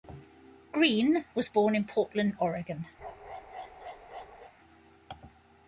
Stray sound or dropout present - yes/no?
yes